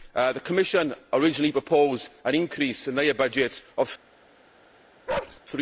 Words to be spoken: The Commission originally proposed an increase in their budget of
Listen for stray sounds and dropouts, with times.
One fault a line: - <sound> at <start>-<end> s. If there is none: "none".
- bark at 5.1-5.4 s